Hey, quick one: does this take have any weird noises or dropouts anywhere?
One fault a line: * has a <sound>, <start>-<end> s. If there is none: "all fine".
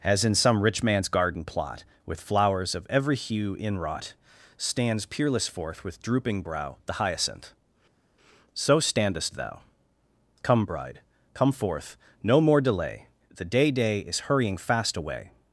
all fine